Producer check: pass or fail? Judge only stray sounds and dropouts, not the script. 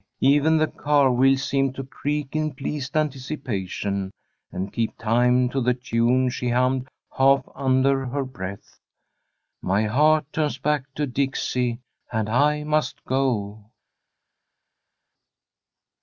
pass